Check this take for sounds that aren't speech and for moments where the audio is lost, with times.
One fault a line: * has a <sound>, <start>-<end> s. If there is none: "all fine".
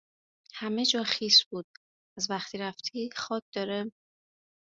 all fine